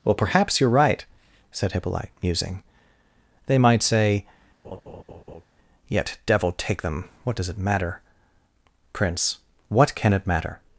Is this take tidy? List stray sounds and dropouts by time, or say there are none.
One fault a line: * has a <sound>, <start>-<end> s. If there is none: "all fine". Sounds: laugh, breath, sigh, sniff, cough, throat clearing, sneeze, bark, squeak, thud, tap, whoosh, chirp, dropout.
* has a laugh, 4.6-5.5 s